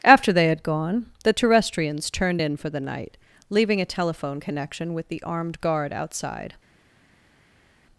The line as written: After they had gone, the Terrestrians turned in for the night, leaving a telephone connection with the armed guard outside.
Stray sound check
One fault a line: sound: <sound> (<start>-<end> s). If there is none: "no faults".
no faults